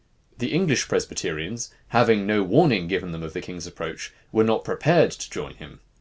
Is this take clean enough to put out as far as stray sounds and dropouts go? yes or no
yes